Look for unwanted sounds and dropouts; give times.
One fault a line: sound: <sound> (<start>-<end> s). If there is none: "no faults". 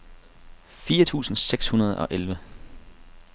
no faults